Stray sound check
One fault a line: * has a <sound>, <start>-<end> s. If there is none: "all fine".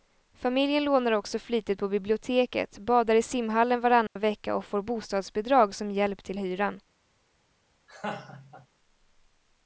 * has a dropout, 4.1-4.2 s
* has a laugh, 7.9-8.7 s